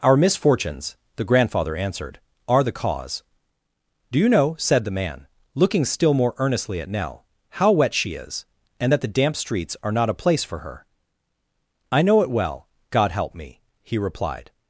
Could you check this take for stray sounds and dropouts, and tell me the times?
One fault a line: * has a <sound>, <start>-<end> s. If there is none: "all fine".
all fine